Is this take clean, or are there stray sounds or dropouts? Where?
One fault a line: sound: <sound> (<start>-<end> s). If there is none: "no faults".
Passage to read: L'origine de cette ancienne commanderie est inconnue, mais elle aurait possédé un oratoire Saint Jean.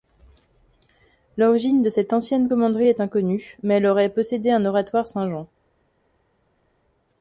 no faults